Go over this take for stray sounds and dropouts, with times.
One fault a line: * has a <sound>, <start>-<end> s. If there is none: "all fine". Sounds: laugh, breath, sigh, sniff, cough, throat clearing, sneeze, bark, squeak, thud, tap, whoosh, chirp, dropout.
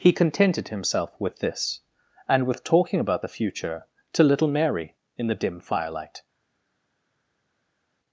all fine